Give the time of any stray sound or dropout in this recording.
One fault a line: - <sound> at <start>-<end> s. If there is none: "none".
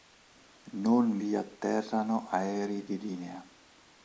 none